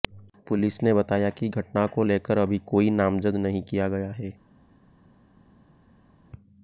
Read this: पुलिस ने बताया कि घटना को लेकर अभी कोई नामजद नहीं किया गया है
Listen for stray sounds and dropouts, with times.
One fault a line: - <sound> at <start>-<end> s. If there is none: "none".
none